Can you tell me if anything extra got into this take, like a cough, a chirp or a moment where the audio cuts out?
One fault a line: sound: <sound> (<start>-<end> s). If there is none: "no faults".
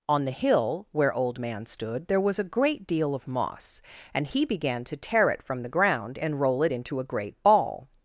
no faults